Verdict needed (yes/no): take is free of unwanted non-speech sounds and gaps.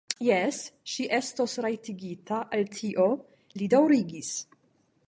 yes